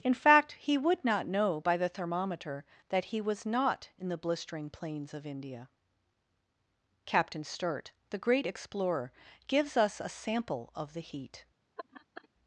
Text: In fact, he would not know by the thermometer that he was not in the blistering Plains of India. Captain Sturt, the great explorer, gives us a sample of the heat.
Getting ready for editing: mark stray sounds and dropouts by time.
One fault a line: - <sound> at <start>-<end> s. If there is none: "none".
- laugh at 11.8-12.3 s